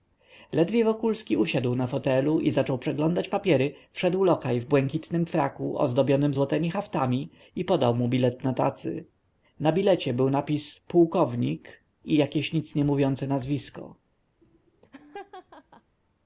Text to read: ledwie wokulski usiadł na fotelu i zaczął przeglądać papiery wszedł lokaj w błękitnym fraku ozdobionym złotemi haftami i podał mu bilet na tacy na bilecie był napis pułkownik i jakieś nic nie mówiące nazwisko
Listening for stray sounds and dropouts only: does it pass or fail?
fail